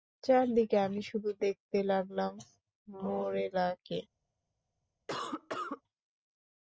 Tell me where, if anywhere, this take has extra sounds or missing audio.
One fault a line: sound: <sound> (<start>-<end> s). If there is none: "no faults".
sound: cough (5.1-5.8 s)